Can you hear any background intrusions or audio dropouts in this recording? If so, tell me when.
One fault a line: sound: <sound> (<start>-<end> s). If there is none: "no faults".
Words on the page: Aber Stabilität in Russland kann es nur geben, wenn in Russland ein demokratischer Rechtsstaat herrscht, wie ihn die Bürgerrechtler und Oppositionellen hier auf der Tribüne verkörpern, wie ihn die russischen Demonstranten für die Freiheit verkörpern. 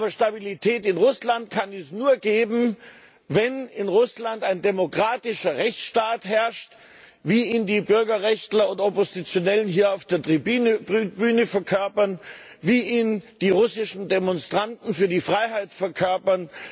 no faults